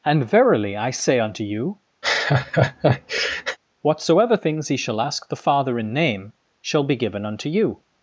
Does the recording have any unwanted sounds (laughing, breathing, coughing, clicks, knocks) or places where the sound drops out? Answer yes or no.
yes